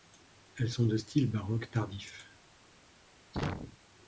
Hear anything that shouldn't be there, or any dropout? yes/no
yes